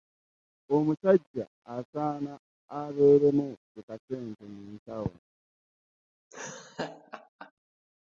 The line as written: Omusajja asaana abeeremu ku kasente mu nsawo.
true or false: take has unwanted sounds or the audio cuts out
true